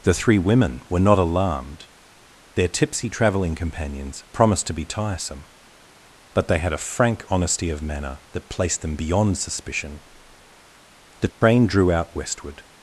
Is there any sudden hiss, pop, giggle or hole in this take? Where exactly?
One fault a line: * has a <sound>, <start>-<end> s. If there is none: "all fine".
* has a dropout, 11.3-11.4 s